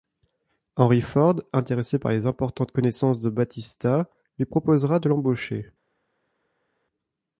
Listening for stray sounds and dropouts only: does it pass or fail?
pass